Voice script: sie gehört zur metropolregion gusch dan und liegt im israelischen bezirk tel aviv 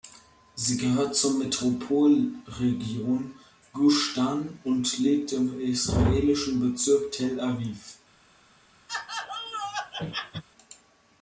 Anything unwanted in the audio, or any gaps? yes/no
yes